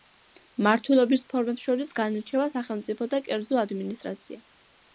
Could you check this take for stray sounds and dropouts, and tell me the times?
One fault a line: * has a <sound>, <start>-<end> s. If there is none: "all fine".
all fine